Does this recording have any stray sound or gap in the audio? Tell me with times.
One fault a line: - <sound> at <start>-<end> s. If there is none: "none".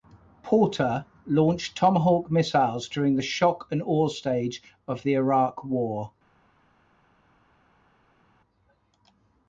none